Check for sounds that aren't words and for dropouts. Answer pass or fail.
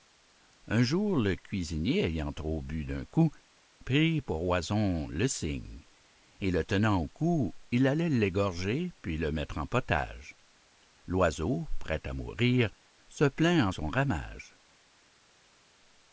pass